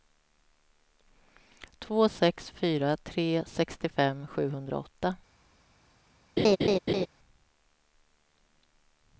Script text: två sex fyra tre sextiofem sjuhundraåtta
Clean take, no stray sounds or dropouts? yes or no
no